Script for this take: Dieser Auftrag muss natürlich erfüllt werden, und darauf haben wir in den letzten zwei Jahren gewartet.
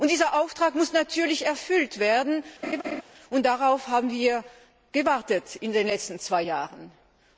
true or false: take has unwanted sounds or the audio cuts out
true